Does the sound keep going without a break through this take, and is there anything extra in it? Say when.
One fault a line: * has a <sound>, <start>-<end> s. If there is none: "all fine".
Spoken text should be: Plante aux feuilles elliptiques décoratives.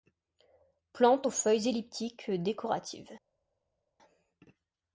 all fine